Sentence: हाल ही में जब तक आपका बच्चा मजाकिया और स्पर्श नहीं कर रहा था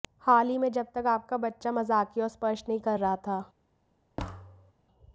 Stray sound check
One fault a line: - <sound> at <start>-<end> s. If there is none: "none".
- thud at 4.2-4.7 s